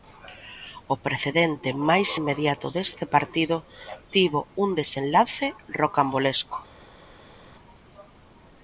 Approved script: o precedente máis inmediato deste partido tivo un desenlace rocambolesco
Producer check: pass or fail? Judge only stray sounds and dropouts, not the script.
pass